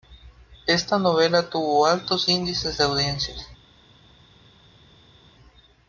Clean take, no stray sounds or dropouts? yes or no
yes